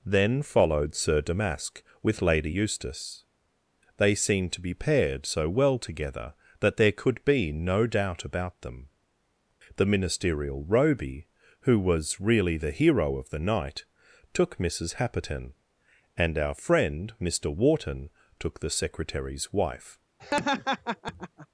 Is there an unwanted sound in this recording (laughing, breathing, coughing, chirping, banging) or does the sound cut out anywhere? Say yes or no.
yes